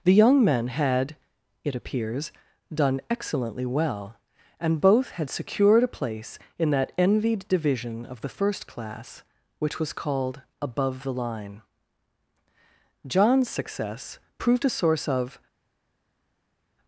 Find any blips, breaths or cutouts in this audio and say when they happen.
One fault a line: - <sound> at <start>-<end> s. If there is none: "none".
none